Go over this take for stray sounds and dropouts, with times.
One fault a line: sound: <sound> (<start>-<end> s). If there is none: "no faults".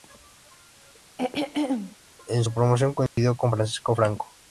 sound: throat clearing (1.2-2.0 s)
sound: dropout (3.1-3.2 s)